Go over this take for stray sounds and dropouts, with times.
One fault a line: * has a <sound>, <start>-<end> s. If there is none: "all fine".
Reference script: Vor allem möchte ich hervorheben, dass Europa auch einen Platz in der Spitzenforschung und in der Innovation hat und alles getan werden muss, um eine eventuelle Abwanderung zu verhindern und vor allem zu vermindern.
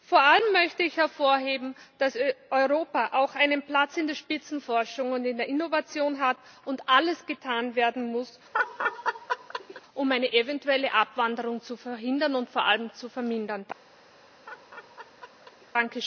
* has a laugh, 8.5-9.8 s
* has a laugh, 14.5-15.7 s